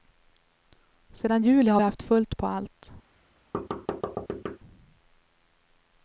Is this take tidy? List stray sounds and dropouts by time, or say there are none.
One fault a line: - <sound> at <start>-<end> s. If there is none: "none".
- thud at 3.5-4.6 s